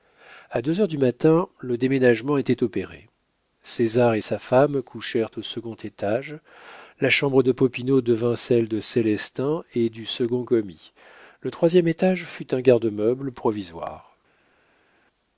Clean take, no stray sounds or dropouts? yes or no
yes